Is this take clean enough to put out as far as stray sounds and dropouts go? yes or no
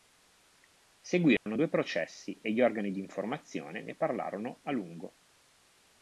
no